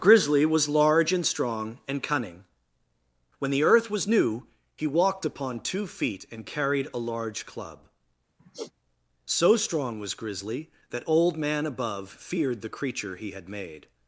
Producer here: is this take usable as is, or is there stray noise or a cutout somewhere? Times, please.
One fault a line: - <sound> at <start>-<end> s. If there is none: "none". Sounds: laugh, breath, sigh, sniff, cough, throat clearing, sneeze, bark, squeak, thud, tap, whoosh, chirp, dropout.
- sigh at 8.4-8.7 s